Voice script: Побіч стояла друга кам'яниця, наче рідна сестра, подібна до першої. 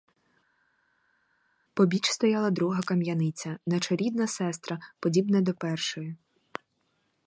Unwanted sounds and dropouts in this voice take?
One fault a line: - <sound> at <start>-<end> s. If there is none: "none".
none